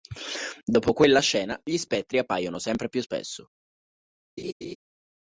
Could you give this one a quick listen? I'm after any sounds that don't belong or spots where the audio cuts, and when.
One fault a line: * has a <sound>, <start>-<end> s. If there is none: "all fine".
* has a laugh, 4.4-4.8 s